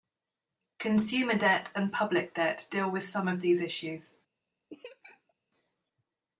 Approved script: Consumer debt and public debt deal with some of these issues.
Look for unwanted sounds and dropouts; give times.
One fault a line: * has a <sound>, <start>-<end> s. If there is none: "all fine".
* has a laugh, 4.7-5.3 s